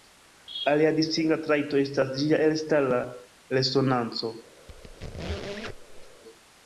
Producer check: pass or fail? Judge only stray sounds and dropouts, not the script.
fail